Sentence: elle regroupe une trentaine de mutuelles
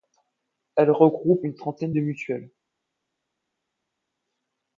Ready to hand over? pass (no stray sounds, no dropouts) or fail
pass